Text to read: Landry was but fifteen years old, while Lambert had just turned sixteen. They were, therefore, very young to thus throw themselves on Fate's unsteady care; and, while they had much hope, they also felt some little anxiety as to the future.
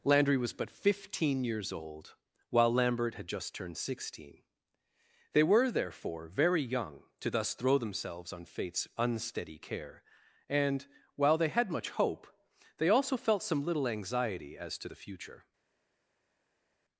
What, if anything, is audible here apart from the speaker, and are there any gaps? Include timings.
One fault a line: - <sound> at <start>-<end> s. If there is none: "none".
none